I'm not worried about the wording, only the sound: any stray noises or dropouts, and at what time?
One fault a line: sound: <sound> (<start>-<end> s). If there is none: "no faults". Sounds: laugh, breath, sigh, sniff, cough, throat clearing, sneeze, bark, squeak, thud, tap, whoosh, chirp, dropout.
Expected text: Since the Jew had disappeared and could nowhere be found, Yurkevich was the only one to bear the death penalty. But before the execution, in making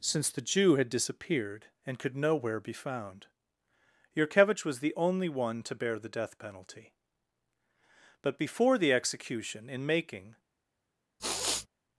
sound: sniff (11.2-11.7 s)